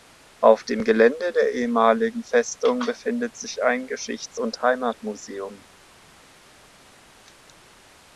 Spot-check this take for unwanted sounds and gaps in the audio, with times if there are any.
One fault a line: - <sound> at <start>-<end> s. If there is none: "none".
none